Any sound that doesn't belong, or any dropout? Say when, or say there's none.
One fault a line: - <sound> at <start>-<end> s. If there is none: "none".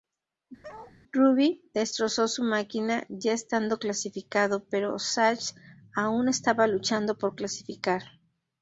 - bark at 0.6-1.0 s